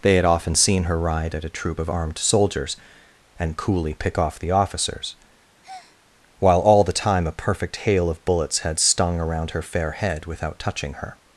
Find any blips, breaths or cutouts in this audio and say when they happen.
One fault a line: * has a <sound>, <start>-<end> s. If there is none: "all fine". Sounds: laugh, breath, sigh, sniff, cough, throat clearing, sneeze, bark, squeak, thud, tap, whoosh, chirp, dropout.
* has a breath, 5.6-6.0 s